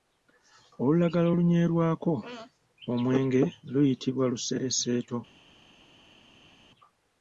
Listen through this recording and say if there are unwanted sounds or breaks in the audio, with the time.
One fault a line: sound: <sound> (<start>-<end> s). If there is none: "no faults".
no faults